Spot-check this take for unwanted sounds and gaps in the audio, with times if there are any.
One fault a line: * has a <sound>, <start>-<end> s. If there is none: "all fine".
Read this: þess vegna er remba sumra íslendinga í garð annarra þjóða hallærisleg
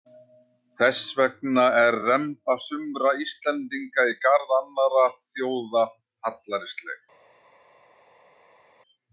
all fine